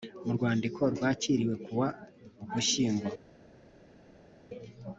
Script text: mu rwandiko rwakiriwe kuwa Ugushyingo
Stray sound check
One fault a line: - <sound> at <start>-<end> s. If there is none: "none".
none